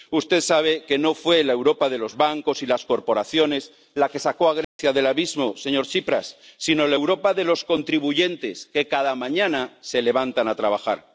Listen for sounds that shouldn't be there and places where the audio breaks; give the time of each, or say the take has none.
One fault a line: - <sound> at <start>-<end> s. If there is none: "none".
- dropout at 4.6-4.8 s